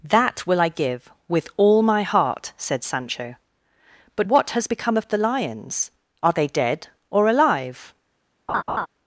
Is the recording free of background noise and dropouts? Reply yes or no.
no